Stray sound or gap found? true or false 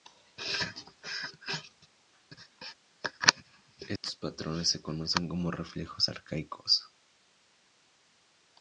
true